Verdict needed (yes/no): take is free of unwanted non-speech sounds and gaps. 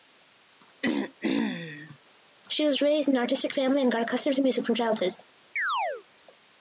no